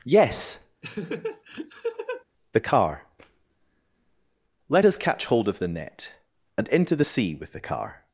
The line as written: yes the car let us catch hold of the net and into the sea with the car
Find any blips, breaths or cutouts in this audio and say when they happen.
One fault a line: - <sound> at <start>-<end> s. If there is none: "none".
- laugh at 0.8-2.2 s